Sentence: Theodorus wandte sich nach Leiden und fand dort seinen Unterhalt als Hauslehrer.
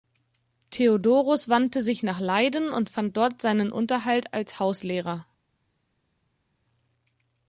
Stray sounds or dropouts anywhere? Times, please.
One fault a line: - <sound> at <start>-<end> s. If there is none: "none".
none